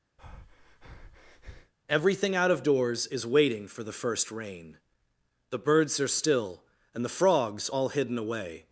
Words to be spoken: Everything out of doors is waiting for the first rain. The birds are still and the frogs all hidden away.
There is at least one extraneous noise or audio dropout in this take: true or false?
true